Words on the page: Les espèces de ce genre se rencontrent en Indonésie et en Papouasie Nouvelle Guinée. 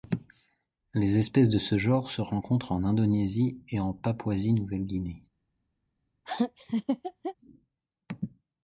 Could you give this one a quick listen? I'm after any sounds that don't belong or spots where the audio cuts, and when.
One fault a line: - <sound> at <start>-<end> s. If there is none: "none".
- laugh at 6.2-7.3 s